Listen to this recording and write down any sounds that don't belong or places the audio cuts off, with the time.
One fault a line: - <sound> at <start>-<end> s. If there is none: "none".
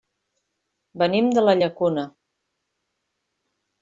none